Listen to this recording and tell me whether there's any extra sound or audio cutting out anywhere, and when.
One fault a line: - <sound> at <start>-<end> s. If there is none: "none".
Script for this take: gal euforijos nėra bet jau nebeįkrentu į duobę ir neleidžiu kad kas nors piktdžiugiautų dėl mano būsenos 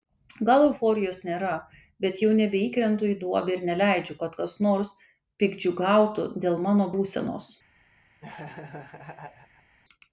- laugh at 8.2-9.8 s